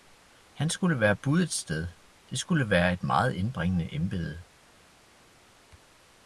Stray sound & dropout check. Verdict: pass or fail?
pass